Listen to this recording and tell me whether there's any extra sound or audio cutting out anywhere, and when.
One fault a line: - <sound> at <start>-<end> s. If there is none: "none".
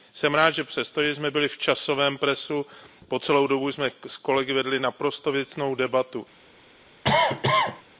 - cough at 7.0-7.8 s